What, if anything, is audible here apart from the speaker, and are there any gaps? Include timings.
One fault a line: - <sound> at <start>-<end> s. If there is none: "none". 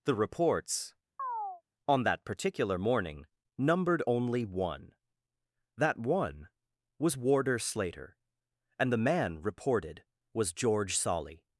- chirp at 1.2-1.6 s